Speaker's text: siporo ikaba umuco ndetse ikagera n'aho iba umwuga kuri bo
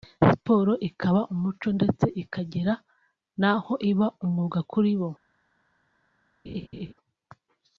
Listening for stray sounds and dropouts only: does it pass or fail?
fail